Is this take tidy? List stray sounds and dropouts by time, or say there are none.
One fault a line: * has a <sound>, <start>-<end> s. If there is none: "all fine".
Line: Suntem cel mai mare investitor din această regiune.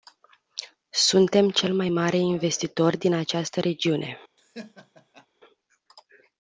* has a laugh, 4.4-5.3 s